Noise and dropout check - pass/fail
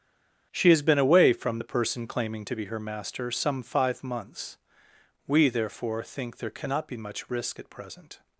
pass